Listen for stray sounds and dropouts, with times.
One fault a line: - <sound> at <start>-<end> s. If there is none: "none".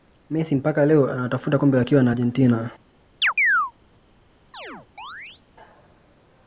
- chirp at 3.2-3.7 s
- chirp at 4.5-5.4 s